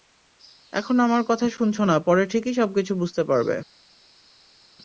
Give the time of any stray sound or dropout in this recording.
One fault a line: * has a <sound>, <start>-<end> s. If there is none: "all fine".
all fine